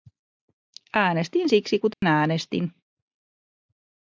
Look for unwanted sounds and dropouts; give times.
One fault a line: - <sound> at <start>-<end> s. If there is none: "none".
- dropout at 1.9-2.0 s